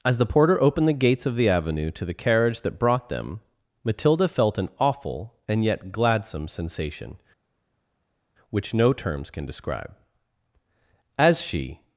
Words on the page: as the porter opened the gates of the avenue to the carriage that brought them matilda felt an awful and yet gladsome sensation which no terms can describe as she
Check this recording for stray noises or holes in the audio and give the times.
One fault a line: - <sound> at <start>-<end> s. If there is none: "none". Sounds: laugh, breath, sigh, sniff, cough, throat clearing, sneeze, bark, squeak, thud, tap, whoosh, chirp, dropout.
none